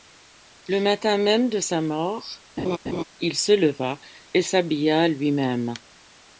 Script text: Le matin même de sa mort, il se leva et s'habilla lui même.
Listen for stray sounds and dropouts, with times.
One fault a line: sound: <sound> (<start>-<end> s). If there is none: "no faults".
sound: laugh (2.6-3.0 s)